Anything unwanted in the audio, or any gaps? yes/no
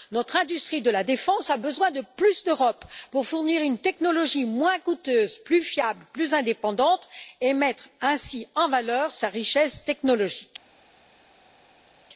no